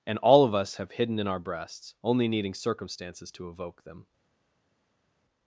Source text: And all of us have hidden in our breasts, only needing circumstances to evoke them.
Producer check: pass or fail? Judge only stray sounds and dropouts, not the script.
pass